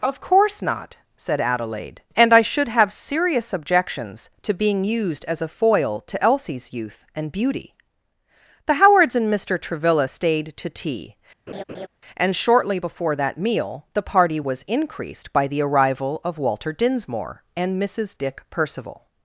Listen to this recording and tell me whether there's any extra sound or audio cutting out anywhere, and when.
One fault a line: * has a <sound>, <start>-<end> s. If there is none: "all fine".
* has a laugh, 11.5-11.9 s